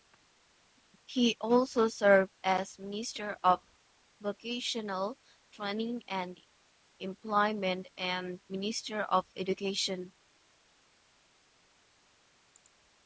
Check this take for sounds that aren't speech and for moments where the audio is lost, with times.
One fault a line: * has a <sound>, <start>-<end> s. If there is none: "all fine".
all fine